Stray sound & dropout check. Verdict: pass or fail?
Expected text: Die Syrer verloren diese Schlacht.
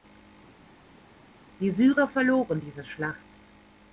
pass